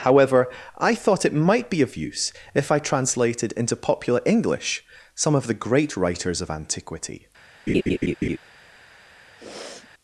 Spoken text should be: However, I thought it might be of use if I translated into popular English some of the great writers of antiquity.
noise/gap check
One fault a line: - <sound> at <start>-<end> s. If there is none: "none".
- laugh at 7.7-8.4 s
- sniff at 9.4-9.9 s